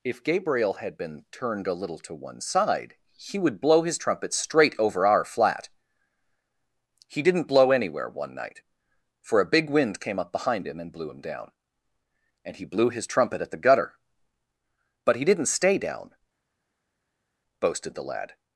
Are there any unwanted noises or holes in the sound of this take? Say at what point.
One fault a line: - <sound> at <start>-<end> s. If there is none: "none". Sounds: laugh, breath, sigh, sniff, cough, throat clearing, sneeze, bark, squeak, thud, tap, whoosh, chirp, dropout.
none